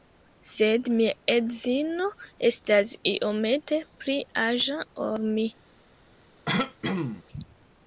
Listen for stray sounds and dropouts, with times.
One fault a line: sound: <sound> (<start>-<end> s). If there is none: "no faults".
sound: throat clearing (6.5-7.2 s)